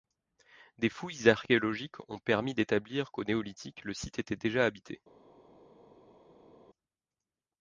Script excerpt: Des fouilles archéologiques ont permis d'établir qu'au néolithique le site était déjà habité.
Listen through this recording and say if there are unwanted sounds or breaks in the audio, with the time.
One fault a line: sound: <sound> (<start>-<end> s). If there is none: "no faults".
no faults